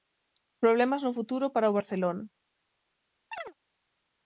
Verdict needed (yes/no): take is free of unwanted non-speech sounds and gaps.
no